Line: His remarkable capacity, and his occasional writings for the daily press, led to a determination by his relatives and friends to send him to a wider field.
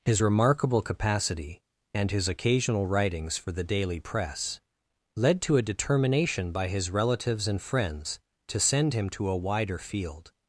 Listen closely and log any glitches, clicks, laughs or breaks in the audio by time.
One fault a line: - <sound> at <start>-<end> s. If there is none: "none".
none